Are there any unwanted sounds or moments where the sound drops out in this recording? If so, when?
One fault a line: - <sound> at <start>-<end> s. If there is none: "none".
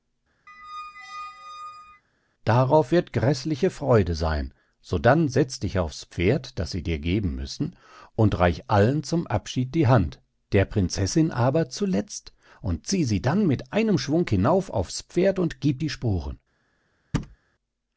- squeak at 0.5-2.0 s
- thud at 17.1-17.4 s